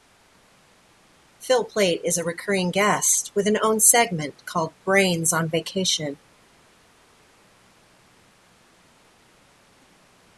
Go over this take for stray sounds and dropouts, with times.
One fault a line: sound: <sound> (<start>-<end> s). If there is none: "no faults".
no faults